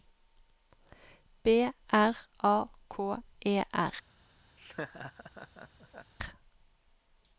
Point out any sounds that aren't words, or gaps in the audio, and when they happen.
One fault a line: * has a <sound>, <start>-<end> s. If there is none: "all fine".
* has a laugh, 4.6-6.1 s